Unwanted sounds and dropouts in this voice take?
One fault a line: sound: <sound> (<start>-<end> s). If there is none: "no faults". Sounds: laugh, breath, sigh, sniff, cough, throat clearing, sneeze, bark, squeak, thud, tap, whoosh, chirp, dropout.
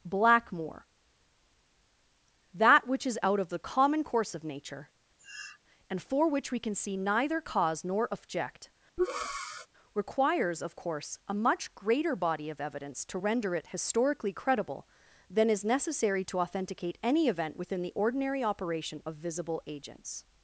sound: sniff (5.2-5.6 s)
sound: breath (9.0-9.7 s)